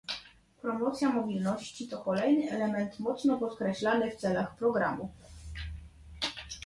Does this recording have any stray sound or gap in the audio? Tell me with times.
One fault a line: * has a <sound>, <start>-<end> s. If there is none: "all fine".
all fine